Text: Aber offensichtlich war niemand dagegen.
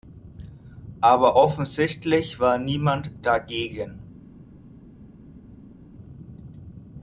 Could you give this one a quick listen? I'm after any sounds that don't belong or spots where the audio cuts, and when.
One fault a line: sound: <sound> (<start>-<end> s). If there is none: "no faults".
no faults